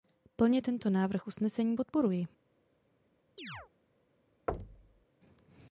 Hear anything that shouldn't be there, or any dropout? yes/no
yes